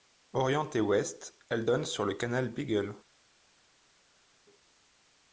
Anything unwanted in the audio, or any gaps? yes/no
no